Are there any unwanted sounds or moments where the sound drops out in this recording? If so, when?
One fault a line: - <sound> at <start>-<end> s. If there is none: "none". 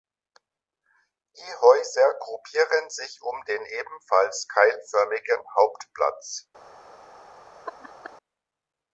- laugh at 7.6-8.2 s